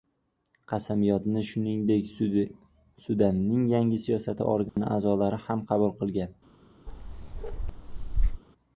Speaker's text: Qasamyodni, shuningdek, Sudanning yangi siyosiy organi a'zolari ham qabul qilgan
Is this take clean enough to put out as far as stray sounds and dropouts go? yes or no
no